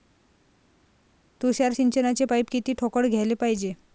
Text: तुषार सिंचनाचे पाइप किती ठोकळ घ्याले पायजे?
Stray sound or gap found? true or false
false